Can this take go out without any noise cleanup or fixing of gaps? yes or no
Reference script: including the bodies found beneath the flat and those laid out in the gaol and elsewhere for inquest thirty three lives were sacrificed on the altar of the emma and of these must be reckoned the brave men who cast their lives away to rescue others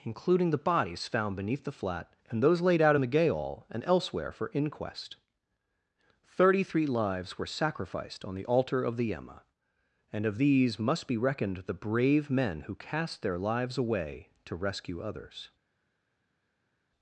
yes